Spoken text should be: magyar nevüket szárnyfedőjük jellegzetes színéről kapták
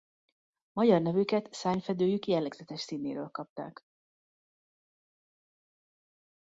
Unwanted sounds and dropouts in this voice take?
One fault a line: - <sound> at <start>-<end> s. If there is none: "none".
none